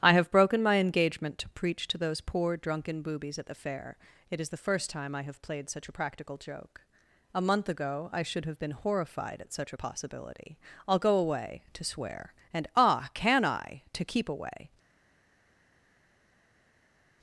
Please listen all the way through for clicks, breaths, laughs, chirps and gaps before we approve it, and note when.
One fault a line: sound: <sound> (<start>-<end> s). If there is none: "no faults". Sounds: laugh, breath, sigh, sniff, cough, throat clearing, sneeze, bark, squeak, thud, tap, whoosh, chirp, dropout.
no faults